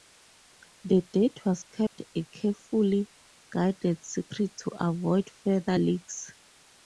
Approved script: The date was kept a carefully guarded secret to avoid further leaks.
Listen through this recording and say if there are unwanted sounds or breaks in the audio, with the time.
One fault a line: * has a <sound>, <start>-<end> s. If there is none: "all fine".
* has a dropout, 1.9-1.9 s